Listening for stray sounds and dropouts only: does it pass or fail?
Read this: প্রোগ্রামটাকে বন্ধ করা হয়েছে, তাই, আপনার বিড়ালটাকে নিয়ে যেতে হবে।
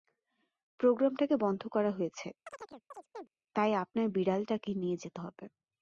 fail